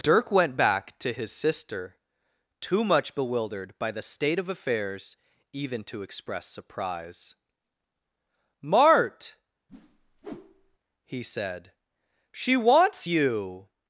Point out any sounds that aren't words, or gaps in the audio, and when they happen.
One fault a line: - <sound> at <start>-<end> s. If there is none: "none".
- whoosh at 9.7-10.8 s